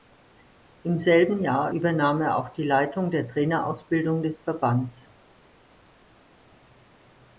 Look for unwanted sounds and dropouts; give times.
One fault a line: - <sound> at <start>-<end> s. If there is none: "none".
none